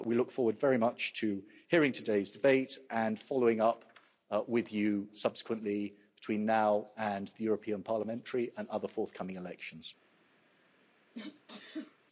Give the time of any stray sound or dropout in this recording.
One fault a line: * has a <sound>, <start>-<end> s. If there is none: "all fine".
* has a sneeze, 11.1-12.0 s